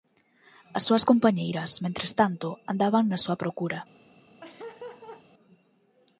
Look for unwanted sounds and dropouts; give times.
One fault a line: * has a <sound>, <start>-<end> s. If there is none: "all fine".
* has a laugh, 4.4-5.2 s